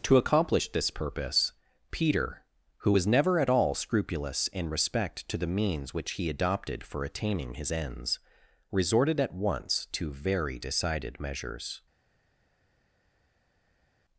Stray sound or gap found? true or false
false